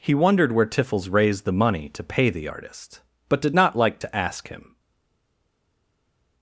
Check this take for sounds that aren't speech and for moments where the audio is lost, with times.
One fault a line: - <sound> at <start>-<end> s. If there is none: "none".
none